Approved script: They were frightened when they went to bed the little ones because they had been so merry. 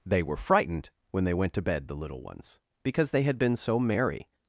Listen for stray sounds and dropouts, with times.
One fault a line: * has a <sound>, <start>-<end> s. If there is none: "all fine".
all fine